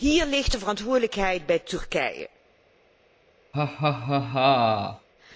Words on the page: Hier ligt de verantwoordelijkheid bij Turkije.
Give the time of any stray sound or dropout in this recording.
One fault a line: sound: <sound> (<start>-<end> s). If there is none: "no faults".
sound: laugh (3.5-5.1 s)